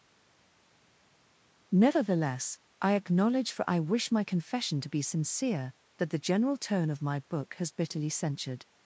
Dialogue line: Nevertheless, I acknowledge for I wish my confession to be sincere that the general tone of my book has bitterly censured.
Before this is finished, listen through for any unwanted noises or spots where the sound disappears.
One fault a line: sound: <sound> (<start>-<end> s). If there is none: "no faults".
no faults